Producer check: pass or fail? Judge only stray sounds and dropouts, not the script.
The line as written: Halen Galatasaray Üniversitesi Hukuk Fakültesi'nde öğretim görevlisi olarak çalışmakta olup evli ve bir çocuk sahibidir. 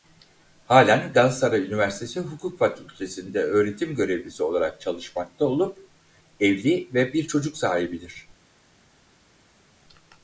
pass